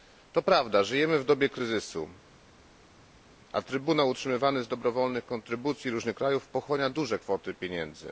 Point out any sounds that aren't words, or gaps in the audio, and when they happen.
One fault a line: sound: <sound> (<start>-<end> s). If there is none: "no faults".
no faults